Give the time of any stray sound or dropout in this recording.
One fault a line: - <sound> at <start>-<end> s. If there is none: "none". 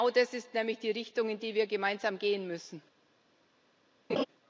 - laugh at 4.1-4.3 s